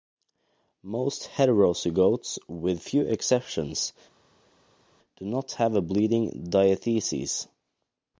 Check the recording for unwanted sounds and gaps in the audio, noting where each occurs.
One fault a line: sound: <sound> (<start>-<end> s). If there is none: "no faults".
no faults